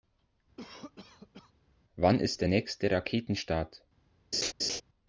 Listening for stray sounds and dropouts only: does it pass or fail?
fail